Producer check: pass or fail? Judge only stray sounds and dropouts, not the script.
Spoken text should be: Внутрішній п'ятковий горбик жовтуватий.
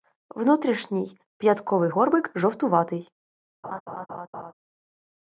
fail